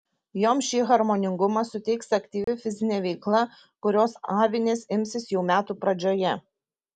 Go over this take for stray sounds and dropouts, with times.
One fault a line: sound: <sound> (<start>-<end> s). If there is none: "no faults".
sound: dropout (2.4-2.5 s)